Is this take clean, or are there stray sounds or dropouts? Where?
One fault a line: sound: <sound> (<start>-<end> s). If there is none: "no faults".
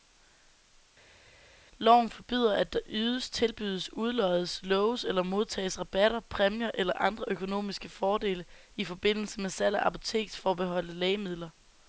no faults